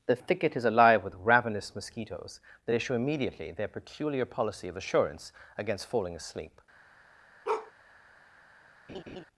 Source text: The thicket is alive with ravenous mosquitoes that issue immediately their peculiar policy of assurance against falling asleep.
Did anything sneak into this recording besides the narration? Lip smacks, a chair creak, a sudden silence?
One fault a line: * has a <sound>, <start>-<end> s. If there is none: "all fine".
* has a bark, 7.4-7.7 s
* has a laugh, 8.9-9.2 s